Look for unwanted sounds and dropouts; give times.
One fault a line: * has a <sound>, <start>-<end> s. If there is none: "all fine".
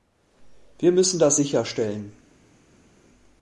all fine